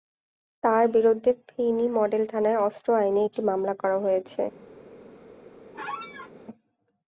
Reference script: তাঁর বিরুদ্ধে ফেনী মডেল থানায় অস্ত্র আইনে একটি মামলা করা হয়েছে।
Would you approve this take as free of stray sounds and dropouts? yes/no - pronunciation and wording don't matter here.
no